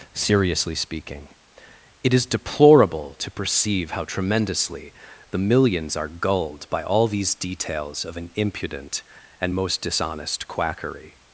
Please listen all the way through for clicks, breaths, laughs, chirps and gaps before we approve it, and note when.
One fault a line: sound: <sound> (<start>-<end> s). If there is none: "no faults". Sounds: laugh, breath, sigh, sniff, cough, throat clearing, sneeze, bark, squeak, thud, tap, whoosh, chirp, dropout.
no faults